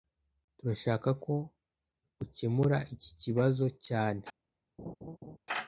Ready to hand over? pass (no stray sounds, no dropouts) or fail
fail